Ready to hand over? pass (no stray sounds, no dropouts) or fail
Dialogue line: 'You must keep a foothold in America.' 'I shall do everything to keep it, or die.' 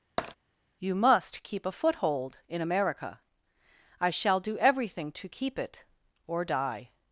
fail